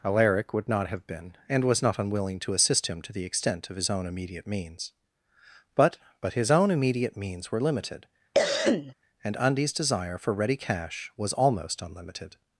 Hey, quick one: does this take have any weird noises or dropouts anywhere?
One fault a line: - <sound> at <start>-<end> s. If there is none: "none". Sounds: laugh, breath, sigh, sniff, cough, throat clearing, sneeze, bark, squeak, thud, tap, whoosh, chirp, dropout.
- cough at 8.3-8.9 s